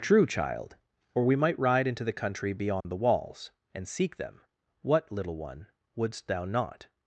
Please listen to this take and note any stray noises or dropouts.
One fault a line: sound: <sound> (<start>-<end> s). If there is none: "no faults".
sound: dropout (2.8-2.8 s)